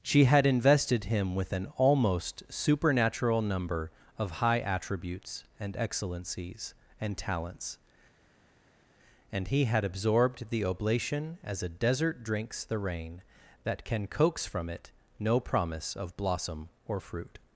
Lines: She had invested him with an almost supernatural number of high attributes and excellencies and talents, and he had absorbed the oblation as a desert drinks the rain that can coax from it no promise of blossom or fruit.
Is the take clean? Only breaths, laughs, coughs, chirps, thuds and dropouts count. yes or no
yes